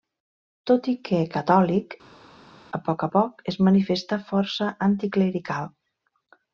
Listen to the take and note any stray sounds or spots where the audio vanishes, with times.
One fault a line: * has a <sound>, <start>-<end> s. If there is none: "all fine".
all fine